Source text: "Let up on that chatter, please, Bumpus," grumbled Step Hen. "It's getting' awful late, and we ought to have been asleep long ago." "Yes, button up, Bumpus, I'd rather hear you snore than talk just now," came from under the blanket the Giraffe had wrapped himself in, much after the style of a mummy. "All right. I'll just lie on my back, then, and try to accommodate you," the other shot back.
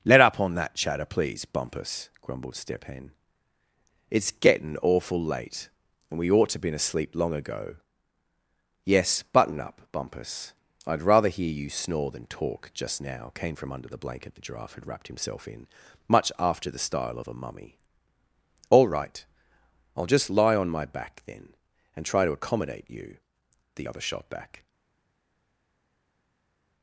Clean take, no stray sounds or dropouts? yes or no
yes